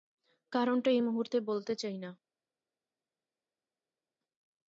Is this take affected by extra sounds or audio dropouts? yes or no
no